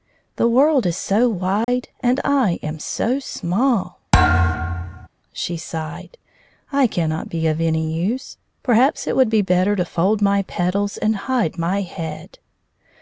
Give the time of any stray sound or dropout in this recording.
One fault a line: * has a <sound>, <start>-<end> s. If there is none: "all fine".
* has a dropout, 1.6-1.7 s
* has a thud, 4.1-5.1 s